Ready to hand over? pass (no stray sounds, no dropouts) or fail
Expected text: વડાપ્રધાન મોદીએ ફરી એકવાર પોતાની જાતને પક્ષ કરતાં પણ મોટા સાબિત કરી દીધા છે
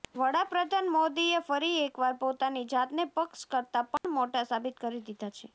fail